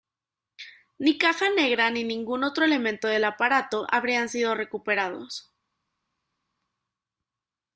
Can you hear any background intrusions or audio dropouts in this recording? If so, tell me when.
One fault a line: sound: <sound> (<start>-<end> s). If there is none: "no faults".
no faults